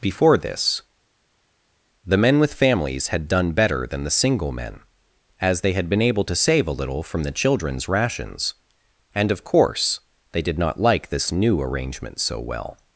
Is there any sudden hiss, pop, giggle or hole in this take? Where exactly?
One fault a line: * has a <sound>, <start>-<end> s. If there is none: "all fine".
all fine